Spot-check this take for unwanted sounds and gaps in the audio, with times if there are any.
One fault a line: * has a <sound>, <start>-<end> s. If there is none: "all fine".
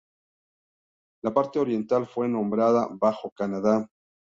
all fine